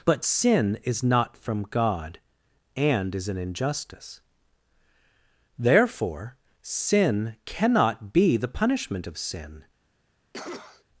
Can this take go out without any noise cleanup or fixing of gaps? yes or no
no